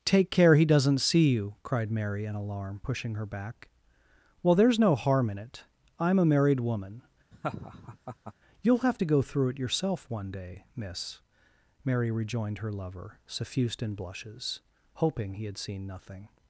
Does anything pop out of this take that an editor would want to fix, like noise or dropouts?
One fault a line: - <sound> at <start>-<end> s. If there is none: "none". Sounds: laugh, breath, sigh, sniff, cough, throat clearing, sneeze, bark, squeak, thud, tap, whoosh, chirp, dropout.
- laugh at 7.3-8.3 s